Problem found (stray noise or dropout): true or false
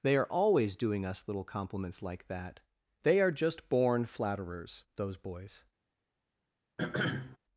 true